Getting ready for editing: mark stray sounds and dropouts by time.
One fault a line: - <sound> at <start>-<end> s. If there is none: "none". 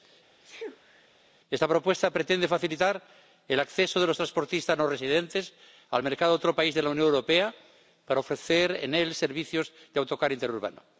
- sneeze at 0.4-1.1 s